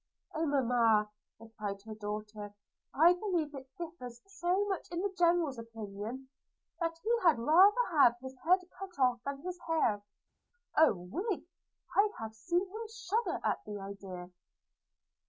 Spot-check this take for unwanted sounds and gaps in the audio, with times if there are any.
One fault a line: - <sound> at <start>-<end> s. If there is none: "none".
none